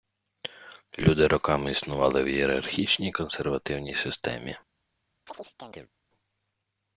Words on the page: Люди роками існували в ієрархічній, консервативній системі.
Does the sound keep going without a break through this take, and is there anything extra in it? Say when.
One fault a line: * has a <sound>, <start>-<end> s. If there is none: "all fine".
* has a chirp, 5.3-5.9 s